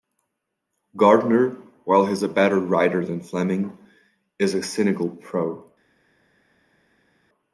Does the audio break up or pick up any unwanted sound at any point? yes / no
no